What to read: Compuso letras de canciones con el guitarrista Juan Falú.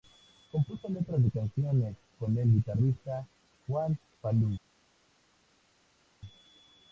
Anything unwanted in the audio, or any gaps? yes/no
no